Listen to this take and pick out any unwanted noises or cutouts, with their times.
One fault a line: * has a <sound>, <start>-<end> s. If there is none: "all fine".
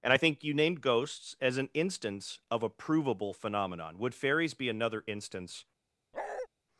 * has a bark, 6.1-6.5 s